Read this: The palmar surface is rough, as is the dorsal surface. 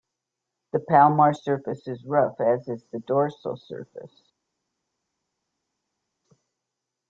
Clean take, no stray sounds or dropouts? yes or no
yes